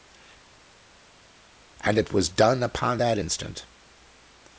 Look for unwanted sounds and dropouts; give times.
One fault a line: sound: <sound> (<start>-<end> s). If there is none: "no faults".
no faults